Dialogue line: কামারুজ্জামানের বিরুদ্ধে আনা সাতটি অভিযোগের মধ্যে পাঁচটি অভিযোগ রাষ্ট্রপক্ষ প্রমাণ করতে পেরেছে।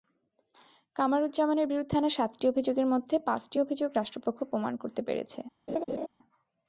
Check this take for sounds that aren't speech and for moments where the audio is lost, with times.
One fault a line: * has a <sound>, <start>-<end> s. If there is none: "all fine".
* has a laugh, 5.7-6.1 s